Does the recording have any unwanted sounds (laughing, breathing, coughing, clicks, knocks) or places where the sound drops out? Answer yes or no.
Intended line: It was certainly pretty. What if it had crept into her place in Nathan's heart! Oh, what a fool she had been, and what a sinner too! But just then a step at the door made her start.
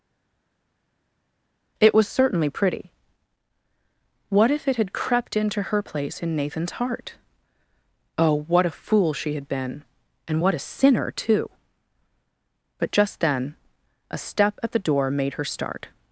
no